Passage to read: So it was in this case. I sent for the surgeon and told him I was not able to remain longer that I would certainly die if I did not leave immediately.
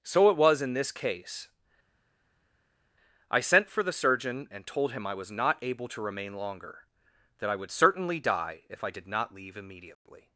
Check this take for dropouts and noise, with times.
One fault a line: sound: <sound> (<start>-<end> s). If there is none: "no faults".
no faults